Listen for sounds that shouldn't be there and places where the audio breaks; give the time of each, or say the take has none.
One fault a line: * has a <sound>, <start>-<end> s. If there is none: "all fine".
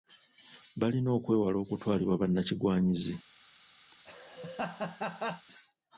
* has a laugh, 3.9-5.5 s